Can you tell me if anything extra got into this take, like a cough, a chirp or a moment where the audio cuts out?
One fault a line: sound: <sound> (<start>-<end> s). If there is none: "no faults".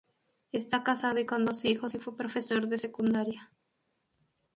no faults